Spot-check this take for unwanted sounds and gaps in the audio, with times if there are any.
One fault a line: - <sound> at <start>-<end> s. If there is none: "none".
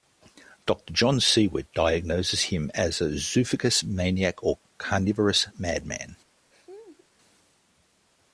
- laugh at 6.5-7.1 s